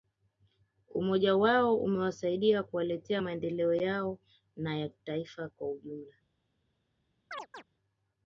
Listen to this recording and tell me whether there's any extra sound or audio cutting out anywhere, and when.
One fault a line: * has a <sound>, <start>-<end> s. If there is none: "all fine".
* has a chirp, 7.3-7.6 s